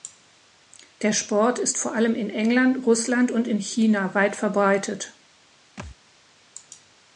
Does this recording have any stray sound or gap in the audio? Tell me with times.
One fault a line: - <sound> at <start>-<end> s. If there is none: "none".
- thud at 5.8-6.0 s